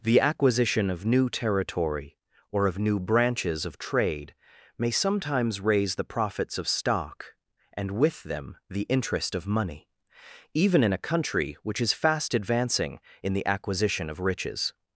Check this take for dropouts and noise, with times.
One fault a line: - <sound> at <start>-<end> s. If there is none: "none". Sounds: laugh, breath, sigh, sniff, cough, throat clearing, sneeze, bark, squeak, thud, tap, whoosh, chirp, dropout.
none